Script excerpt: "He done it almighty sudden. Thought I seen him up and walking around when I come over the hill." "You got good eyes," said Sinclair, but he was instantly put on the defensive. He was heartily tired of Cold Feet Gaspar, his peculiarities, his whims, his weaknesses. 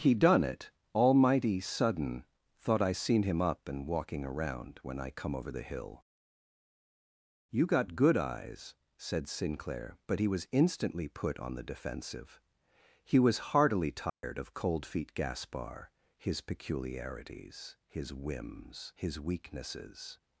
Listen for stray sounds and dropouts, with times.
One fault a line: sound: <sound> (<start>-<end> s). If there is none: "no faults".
sound: dropout (14.1-14.2 s)